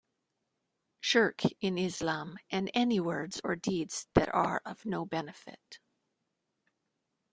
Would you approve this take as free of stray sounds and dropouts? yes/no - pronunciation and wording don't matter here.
yes